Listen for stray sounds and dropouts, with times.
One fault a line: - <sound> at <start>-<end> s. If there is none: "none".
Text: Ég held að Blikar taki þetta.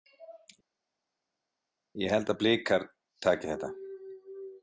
none